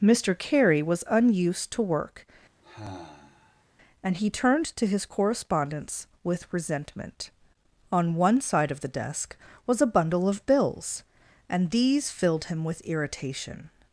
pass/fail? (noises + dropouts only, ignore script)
fail